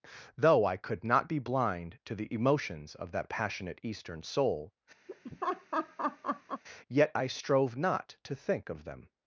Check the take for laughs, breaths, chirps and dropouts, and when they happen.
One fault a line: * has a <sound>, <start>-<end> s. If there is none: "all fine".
* has a laugh, 5.1-6.6 s